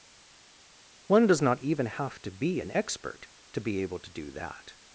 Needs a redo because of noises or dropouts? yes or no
no